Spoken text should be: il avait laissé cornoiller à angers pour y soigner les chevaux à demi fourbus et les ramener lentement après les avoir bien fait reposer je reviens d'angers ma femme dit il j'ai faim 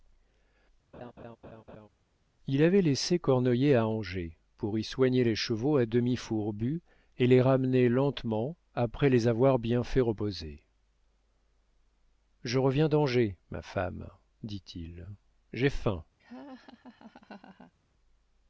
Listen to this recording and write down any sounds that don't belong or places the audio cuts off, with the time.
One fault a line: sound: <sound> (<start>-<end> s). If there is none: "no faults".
sound: laugh (0.9-1.9 s)
sound: laugh (16.2-17.7 s)